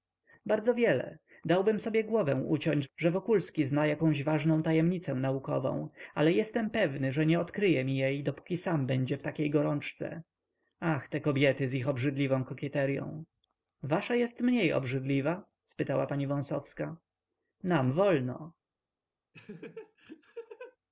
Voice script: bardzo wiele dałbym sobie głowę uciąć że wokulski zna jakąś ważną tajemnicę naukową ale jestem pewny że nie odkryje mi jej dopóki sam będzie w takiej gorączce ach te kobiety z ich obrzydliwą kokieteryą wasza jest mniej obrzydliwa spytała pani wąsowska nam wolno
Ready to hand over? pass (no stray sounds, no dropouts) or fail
fail